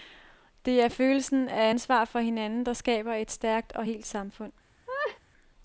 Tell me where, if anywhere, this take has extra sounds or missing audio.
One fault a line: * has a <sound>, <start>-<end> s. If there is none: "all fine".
* has a laugh, 4.9-5.2 s